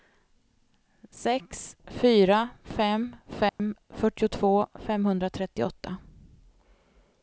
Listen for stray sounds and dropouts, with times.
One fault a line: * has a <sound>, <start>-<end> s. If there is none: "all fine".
* has a dropout, 3.5-3.6 s